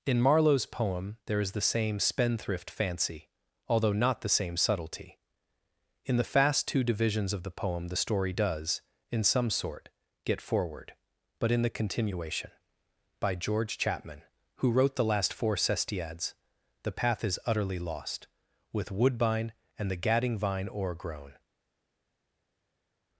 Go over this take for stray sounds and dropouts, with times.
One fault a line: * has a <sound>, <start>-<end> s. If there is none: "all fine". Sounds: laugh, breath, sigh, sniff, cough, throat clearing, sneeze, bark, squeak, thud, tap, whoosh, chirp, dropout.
all fine